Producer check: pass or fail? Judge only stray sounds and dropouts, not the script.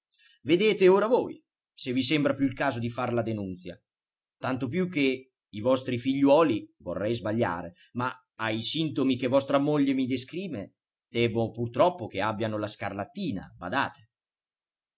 pass